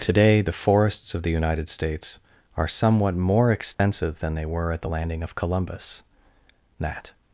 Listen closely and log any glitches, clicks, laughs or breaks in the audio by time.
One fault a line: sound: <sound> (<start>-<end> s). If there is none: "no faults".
sound: dropout (3.7-3.8 s)